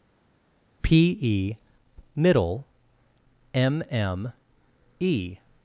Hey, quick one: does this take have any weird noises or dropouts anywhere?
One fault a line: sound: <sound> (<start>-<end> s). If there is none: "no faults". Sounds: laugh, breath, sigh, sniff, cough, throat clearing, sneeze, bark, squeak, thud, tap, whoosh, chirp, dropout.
no faults